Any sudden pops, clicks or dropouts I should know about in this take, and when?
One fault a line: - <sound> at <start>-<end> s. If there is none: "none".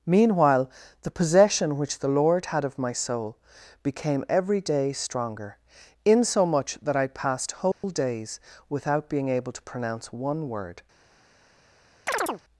- dropout at 7.7-7.8 s
- chirp at 12.1-12.4 s